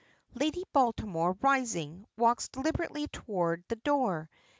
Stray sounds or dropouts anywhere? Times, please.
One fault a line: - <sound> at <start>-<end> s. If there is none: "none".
none